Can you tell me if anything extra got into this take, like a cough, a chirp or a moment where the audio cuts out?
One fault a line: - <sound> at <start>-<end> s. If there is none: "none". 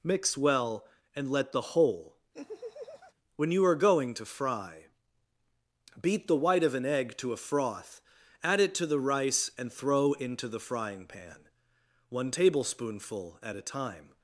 - laugh at 2.3-3.1 s